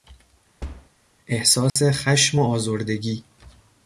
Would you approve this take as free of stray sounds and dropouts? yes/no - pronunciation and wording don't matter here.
no